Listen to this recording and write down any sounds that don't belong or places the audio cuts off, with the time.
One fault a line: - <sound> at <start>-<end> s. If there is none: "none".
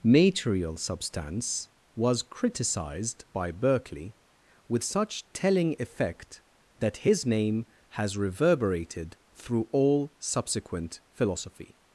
none